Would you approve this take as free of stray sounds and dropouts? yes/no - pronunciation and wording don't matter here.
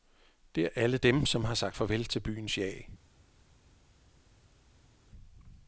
yes